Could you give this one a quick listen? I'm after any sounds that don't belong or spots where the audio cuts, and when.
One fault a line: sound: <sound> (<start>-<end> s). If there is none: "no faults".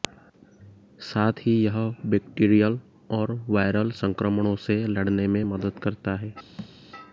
sound: thud (6.6-6.8 s)